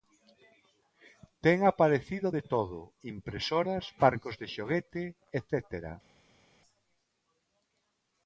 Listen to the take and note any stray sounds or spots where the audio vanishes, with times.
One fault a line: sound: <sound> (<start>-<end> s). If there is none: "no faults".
no faults